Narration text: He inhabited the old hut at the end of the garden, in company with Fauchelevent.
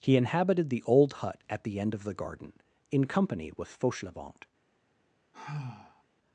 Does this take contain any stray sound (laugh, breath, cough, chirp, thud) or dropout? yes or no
yes